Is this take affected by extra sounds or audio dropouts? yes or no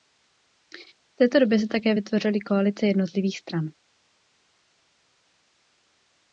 no